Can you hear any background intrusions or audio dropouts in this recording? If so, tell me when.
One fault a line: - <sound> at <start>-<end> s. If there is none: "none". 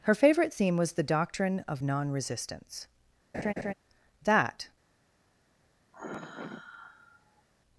- laugh at 3.3-3.7 s
- sigh at 5.9-7.4 s